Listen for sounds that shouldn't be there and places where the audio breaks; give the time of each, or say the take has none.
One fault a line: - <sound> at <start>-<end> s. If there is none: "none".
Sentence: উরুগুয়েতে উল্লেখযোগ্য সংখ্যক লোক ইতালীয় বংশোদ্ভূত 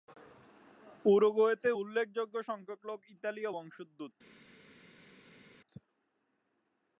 none